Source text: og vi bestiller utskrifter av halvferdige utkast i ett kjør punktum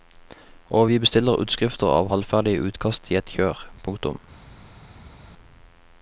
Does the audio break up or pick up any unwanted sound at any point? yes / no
no